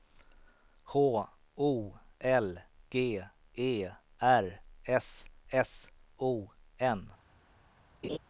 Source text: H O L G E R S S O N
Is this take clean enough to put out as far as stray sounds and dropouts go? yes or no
no